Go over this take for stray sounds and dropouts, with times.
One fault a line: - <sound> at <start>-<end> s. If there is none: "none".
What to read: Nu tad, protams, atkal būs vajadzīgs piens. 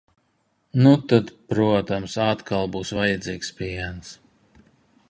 none